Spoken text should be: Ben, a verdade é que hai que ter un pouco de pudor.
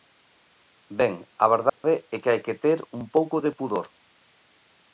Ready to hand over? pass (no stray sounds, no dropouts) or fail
fail